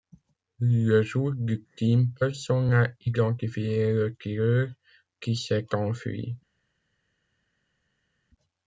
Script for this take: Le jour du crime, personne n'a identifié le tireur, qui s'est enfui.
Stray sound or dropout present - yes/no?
no